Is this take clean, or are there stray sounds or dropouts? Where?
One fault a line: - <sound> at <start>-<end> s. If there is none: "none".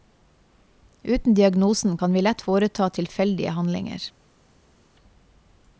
none